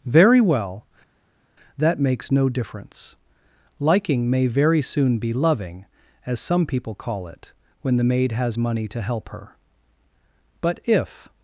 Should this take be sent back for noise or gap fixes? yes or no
no